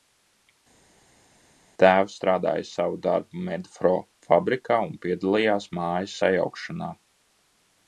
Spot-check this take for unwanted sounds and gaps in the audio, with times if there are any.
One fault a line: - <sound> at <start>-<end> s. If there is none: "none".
none